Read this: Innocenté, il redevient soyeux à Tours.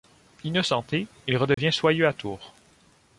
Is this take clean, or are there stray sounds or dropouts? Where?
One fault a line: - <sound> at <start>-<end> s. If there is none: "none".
- dropout at 1.5-1.6 s